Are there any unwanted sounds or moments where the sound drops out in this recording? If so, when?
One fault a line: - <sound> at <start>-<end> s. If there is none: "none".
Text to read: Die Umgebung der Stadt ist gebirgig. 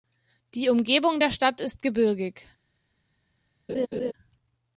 - laugh at 3.7-4.1 s